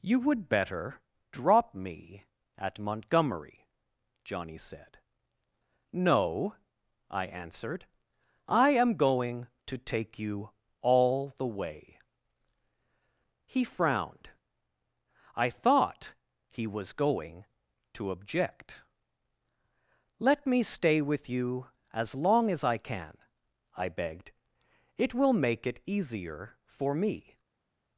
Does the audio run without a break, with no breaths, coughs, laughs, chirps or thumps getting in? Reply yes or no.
yes